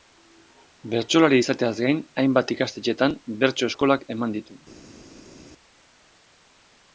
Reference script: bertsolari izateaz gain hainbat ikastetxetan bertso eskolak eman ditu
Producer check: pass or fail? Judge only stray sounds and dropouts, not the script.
pass